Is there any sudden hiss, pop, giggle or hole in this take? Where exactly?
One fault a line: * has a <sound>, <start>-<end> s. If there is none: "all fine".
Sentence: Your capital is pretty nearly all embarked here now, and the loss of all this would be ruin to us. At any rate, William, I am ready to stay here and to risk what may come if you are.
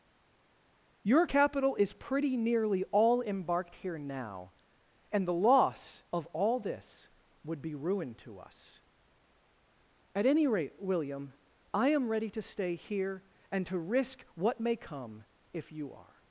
all fine